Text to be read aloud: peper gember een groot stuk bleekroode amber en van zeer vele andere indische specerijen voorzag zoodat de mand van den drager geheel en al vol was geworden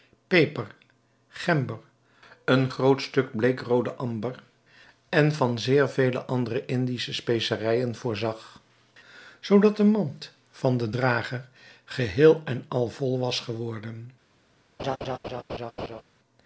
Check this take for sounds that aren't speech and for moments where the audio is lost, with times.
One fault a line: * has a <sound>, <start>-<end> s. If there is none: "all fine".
* has a laugh, 14.8-16.0 s